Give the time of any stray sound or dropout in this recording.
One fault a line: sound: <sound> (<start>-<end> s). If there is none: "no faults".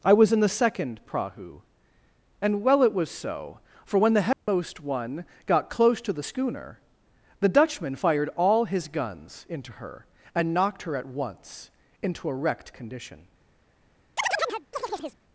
sound: dropout (4.3-4.5 s)
sound: chirp (14.2-15.2 s)